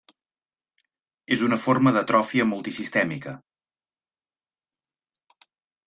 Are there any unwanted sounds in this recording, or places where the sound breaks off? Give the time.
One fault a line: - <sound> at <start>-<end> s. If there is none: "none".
none